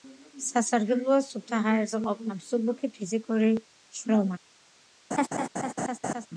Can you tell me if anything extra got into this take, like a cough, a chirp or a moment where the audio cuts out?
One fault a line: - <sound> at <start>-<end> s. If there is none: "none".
- laugh at 5.1-6.3 s